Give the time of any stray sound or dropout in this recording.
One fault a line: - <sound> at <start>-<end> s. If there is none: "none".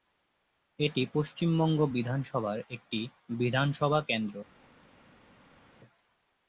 none